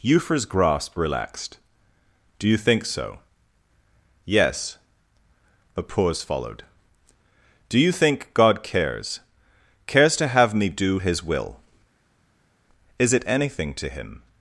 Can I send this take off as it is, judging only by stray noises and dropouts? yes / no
yes